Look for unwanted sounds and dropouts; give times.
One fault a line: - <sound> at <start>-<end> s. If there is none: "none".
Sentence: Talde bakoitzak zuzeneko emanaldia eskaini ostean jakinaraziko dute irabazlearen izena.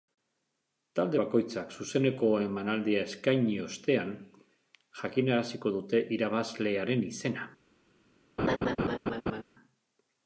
- laugh at 8.4-9.4 s